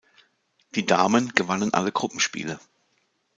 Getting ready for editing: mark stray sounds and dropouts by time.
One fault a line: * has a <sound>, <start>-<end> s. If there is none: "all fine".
all fine